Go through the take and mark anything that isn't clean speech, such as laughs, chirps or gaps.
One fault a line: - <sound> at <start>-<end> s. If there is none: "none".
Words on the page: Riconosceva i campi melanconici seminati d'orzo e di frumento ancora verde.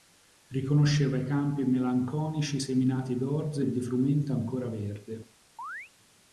- chirp at 5.6-5.9 s